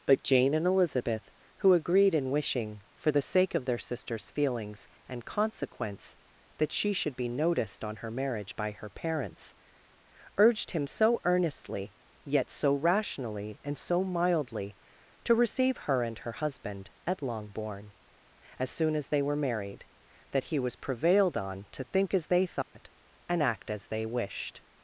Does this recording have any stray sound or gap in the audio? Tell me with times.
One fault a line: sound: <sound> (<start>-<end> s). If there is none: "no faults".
sound: dropout (22.6-22.8 s)